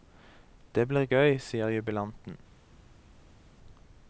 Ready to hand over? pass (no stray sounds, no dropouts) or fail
pass